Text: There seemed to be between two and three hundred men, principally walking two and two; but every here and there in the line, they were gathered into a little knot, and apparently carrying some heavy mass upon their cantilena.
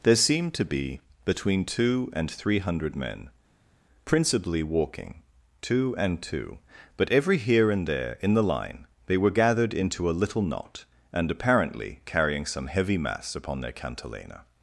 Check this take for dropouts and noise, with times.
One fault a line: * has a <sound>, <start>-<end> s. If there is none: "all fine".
all fine